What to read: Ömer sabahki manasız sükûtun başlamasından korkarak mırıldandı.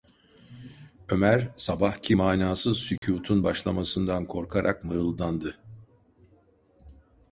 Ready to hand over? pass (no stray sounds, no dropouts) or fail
fail